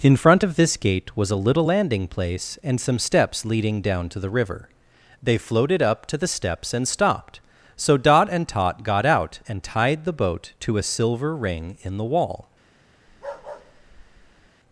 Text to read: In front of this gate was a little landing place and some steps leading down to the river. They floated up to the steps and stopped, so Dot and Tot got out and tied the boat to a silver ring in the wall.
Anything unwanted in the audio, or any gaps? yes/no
yes